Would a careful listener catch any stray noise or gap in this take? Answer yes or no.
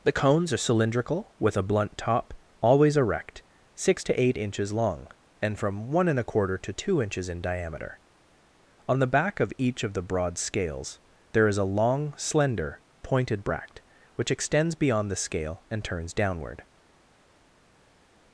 no